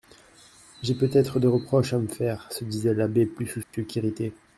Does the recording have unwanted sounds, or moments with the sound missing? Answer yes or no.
yes